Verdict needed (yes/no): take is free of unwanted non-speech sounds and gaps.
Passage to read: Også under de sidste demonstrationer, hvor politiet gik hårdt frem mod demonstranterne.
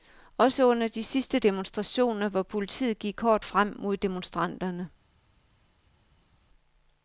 yes